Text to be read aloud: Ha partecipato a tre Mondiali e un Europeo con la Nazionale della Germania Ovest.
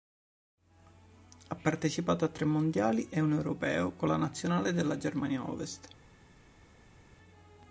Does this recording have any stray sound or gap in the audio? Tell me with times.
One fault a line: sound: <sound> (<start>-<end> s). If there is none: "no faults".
no faults